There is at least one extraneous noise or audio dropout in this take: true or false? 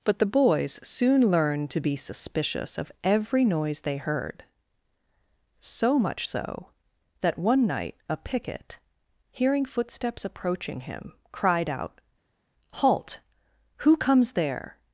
false